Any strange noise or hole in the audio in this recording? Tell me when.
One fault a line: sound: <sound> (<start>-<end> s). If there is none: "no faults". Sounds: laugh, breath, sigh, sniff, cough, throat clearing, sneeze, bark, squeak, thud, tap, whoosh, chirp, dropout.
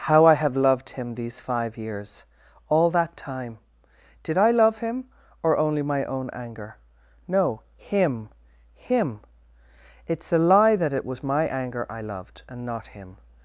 no faults